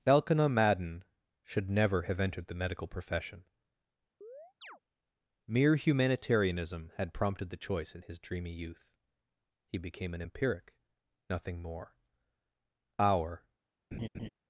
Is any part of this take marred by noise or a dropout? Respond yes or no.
yes